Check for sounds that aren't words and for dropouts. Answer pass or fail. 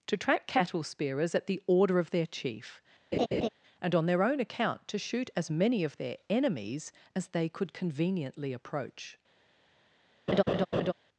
fail